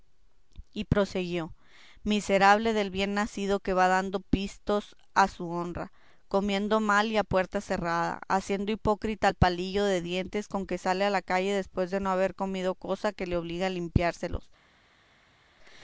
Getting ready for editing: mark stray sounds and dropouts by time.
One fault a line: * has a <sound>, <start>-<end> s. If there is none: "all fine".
all fine